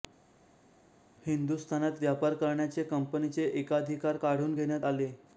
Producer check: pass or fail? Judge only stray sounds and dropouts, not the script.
pass